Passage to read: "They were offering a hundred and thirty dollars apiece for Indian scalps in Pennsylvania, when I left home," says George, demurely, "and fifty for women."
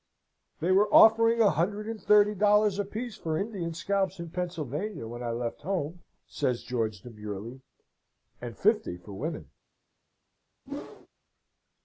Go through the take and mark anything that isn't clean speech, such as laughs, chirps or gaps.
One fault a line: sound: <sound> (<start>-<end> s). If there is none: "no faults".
sound: whoosh (10.7-11.1 s)